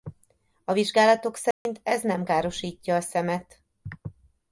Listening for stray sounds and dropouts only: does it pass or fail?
fail